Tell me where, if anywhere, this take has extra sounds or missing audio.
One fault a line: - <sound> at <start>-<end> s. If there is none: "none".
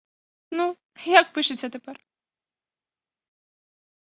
none